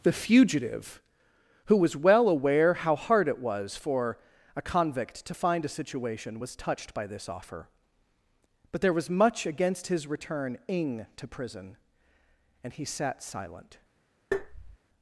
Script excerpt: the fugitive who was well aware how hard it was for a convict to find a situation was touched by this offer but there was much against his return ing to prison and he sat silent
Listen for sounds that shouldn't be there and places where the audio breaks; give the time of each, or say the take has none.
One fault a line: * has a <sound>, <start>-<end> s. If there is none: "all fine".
* has a tap, 14.3-14.8 s